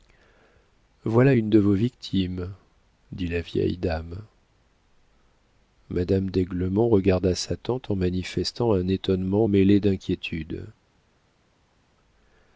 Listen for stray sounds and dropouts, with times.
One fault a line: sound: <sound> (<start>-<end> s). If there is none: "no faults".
no faults